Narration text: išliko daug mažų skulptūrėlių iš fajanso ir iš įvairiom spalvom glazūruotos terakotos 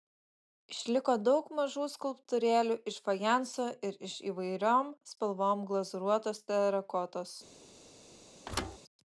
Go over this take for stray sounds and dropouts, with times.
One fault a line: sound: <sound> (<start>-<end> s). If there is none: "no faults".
sound: thud (8.5-8.8 s)